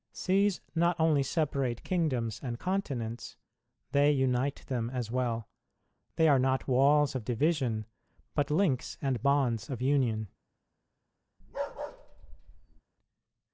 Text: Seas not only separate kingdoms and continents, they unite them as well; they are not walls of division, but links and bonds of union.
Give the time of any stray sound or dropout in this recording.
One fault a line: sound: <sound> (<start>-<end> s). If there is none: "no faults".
sound: bark (11.4-12.8 s)